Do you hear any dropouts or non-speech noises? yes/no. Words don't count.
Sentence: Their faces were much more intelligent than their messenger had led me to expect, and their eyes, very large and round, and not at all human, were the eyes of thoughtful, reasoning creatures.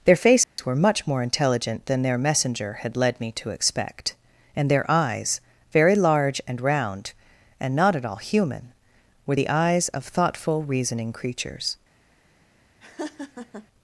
yes